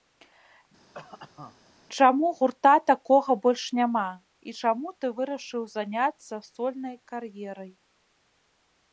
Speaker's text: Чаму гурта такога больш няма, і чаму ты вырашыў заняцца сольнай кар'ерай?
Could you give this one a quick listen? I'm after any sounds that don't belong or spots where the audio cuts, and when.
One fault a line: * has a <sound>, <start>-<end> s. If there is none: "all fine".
* has a cough, 0.9-1.7 s